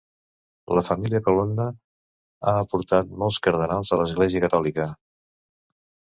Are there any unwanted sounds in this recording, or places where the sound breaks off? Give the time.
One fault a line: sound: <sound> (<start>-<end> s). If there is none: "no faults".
no faults